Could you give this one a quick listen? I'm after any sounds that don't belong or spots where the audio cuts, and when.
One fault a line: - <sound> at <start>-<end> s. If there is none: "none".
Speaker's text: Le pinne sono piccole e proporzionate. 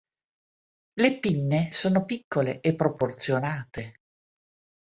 none